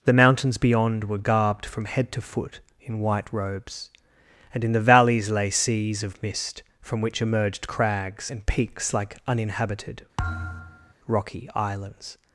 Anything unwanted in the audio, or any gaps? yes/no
yes